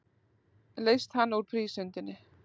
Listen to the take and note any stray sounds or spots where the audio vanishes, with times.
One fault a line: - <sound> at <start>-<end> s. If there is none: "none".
none